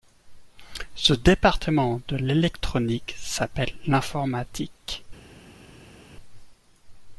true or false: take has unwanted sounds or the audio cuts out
false